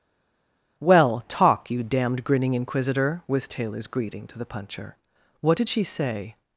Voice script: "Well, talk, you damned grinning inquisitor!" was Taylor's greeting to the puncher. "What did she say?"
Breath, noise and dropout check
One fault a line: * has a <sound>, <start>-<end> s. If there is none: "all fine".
all fine